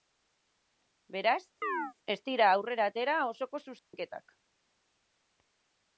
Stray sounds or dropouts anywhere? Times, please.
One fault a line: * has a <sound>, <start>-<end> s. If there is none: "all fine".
* has a chirp, 1.6-1.9 s
* has a dropout, 3.8-3.9 s